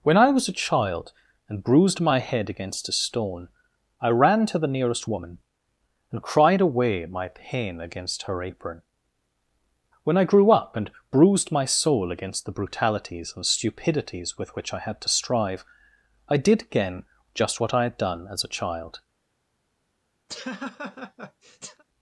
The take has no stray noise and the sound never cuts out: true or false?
false